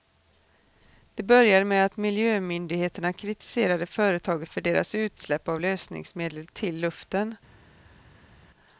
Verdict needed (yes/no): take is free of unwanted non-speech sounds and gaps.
yes